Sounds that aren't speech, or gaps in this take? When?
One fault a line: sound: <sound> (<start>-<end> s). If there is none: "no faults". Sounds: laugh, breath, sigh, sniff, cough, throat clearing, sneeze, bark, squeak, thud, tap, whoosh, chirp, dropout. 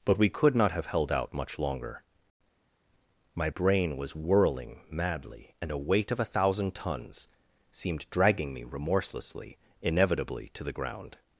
no faults